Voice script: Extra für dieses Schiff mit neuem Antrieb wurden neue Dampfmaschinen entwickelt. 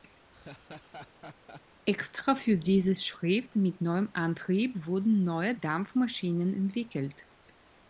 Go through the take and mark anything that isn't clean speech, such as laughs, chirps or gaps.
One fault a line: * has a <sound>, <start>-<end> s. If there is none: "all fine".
* has a laugh, 0.3-1.6 s